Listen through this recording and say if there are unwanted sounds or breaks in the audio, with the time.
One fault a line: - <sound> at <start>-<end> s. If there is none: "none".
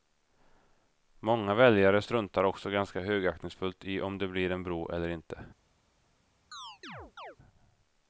- chirp at 6.5-7.4 s